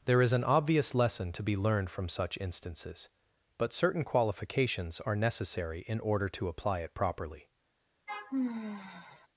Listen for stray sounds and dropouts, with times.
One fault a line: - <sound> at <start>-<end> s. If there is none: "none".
- sigh at 8.1-9.3 s